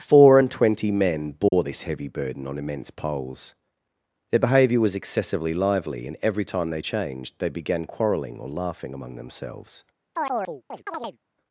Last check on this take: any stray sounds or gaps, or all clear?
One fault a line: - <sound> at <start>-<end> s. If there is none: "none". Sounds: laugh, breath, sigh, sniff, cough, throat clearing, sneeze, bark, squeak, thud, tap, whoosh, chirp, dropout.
- dropout at 1.5-1.5 s
- chirp at 10.2-11.2 s